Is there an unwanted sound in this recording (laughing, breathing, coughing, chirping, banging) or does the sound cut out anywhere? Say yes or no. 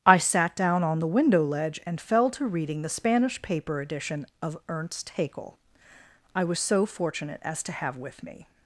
no